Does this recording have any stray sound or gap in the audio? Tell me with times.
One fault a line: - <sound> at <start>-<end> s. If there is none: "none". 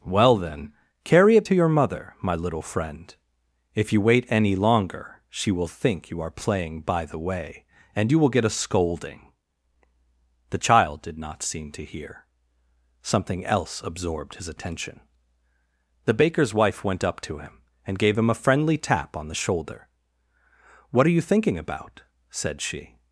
none